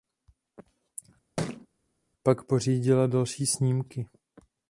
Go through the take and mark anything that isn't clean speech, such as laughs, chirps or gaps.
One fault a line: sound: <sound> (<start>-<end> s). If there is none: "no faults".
sound: thud (1.4-1.7 s)